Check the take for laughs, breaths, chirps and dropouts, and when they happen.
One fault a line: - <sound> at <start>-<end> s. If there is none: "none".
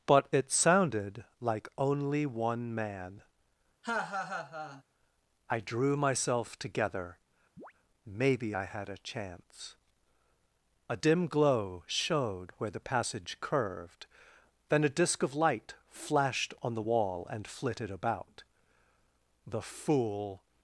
- laugh at 3.8-4.8 s
- chirp at 7.6-7.7 s